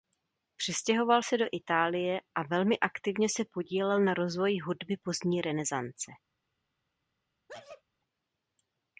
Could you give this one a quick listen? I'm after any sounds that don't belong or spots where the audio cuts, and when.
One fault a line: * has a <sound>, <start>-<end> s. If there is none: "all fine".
* has a sneeze, 7.5-7.8 s